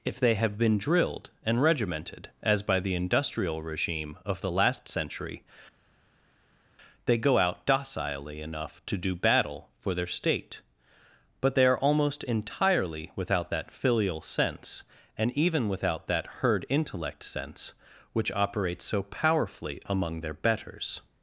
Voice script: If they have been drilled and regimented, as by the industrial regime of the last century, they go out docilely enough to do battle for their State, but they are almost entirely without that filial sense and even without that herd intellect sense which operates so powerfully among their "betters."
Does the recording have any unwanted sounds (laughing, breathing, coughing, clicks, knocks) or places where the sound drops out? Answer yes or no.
no